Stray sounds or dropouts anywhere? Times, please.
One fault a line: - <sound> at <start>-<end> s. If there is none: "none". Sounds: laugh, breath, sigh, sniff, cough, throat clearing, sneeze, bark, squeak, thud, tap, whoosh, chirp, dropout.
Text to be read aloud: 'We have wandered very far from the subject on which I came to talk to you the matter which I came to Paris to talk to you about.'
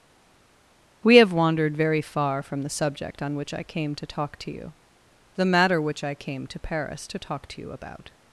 none